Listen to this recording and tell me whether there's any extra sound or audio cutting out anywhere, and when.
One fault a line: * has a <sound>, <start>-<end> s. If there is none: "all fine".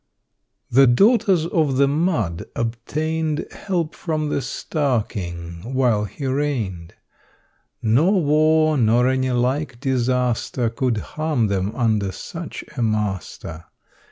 all fine